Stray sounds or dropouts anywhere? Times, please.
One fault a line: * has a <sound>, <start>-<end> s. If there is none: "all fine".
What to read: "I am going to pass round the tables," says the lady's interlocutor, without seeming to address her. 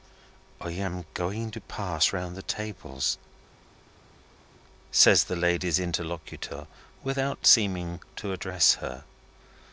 all fine